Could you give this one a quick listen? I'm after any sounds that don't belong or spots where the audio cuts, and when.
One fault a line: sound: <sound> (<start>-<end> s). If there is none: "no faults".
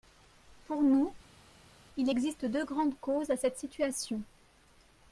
no faults